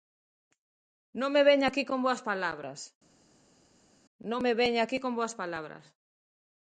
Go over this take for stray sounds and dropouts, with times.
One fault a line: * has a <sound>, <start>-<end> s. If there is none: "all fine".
all fine